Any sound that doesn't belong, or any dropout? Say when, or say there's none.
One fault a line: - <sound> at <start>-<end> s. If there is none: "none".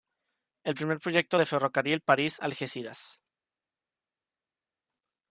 none